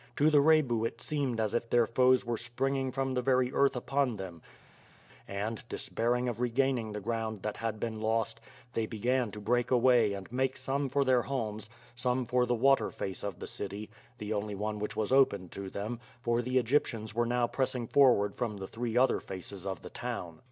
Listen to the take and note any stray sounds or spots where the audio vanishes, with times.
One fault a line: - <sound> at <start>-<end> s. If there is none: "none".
none